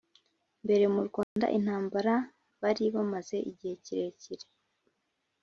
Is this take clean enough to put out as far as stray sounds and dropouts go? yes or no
no